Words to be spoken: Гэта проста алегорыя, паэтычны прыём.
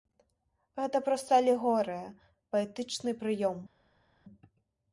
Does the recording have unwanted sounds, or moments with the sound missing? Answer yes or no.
no